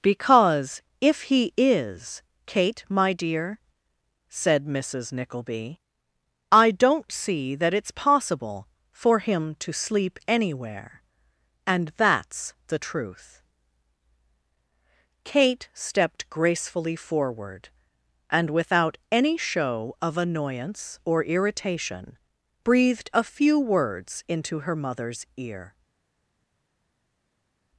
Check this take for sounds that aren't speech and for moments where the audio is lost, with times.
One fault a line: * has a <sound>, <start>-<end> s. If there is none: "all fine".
all fine